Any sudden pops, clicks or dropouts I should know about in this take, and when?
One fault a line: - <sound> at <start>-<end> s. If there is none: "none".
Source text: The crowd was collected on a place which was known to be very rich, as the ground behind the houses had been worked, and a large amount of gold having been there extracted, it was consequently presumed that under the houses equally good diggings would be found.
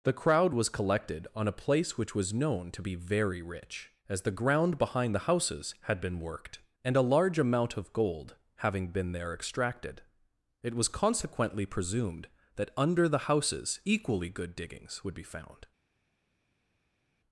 none